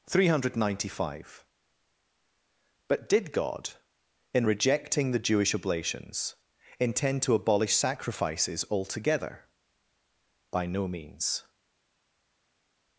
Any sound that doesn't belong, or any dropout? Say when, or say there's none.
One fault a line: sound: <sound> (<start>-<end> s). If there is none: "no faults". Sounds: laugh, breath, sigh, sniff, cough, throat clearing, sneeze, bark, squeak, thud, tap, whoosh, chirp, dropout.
no faults